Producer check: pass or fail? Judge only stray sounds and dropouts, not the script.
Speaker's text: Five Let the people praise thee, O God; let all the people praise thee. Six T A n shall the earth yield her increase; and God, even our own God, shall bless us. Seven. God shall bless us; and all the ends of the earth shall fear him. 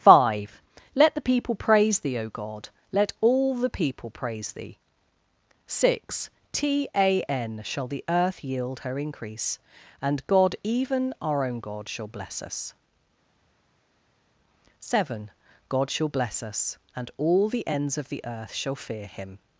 pass